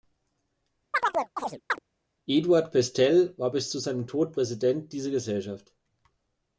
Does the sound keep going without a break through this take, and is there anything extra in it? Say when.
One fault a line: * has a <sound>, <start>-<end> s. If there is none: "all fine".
* has a chirp, 0.9-1.8 s